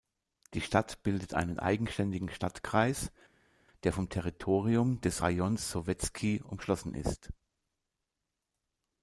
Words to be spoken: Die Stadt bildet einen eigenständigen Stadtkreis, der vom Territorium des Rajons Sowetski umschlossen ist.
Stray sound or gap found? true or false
false